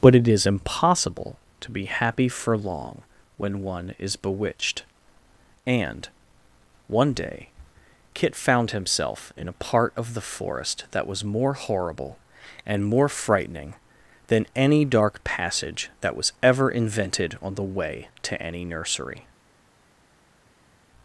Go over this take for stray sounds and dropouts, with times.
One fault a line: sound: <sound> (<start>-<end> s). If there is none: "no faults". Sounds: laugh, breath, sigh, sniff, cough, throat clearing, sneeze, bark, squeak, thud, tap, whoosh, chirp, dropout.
no faults